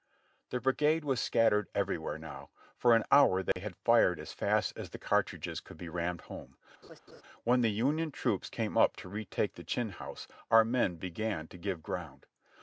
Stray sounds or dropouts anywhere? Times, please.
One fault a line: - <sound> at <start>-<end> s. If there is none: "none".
- dropout at 3.5-3.6 s
- laugh at 6.8-7.2 s